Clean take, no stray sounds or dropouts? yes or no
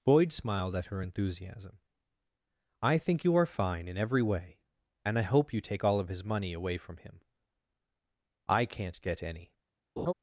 no